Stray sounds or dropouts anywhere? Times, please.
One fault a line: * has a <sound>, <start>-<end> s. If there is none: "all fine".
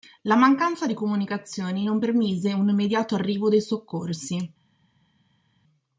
all fine